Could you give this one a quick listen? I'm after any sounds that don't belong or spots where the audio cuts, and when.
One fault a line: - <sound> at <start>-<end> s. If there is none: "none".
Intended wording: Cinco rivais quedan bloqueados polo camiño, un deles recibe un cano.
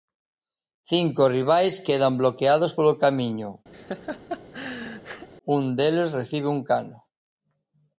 - laugh at 3.7-5.3 s